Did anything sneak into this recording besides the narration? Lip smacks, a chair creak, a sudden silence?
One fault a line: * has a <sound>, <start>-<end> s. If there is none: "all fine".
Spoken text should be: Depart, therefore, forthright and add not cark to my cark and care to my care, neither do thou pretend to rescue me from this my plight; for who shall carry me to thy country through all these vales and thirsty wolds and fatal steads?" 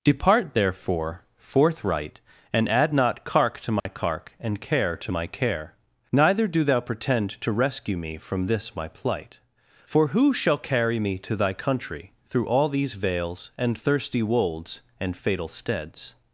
* has a dropout, 3.8-3.9 s